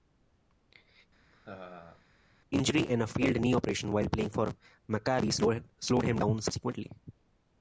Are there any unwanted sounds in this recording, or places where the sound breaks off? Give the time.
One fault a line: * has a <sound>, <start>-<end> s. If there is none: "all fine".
* has a laugh, 1.3-2.0 s